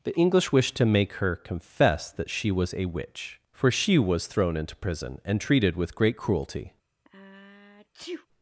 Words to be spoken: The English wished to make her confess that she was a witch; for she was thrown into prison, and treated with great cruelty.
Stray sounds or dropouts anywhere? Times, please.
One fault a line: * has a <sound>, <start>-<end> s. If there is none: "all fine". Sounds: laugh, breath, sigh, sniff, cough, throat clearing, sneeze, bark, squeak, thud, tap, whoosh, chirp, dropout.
* has a sneeze, 7.1-8.3 s